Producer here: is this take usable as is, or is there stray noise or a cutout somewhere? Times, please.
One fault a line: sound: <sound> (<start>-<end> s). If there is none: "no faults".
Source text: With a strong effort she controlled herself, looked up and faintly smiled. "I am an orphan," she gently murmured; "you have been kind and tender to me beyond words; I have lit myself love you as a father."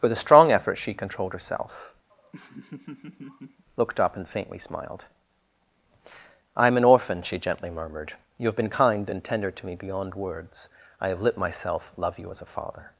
sound: laugh (2.1-3.6 s)